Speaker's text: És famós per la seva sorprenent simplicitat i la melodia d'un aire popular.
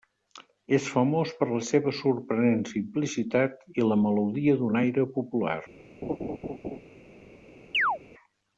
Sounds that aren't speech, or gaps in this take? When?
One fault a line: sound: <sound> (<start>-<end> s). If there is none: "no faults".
sound: laugh (6.0-6.8 s)
sound: chirp (7.7-8.0 s)